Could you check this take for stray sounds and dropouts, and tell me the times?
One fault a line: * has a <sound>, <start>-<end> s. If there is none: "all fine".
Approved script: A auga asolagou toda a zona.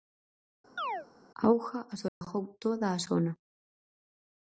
* has a chirp, 0.8-1.1 s
* has a dropout, 2.1-2.2 s